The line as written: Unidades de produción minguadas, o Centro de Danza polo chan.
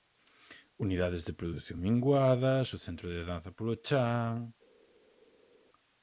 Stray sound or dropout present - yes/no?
no